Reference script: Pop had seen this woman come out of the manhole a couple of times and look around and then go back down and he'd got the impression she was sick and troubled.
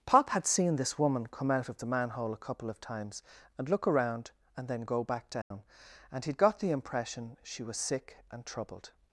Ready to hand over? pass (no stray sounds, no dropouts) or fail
fail